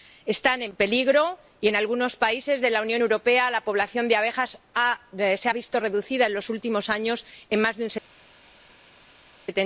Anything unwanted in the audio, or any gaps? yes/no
no